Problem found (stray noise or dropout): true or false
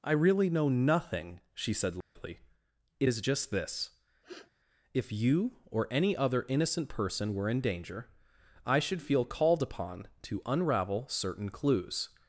true